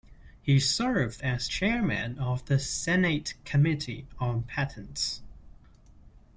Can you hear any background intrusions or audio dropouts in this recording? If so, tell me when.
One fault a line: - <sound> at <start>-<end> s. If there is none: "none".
none